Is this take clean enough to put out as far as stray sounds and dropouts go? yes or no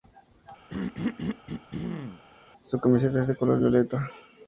no